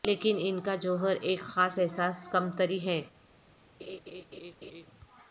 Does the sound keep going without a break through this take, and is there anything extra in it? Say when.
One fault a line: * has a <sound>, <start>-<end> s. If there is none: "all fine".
* has a laugh, 3.8-4.9 s